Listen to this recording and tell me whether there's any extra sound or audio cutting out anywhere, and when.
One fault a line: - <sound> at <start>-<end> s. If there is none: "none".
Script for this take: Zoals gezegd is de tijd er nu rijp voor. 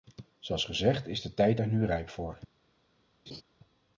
- laugh at 3.3-3.4 s